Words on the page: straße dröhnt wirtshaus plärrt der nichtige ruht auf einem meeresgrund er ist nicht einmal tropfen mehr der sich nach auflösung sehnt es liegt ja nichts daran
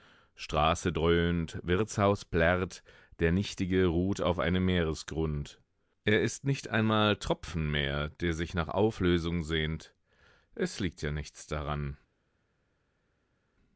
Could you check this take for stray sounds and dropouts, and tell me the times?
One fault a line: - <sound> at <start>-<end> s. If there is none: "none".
none